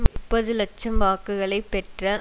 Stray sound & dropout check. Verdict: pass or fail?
fail